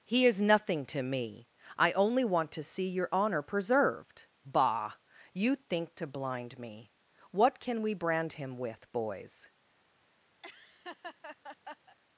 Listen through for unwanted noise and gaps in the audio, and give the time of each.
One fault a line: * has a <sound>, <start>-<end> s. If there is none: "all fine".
* has a laugh, 10.4-12.0 s